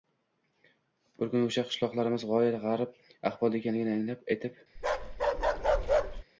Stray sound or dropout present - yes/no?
yes